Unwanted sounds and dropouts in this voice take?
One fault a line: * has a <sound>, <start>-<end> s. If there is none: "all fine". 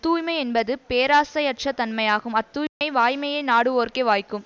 * has a dropout, 2.7-2.8 s